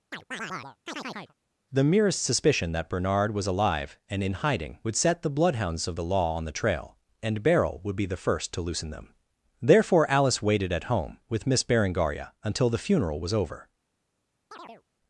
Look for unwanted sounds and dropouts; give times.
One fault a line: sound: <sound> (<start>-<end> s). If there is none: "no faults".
sound: chirp (0.1-1.3 s)
sound: chirp (14.5-14.8 s)